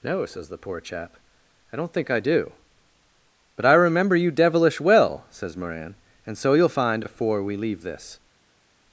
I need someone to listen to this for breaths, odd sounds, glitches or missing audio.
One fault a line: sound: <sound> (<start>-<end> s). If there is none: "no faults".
no faults